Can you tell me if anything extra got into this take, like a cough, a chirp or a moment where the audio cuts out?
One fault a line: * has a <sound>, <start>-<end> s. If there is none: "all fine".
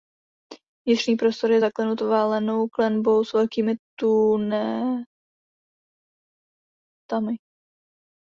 all fine